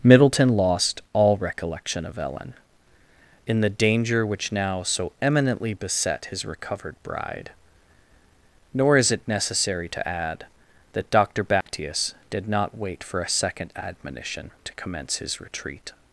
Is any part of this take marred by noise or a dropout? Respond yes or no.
yes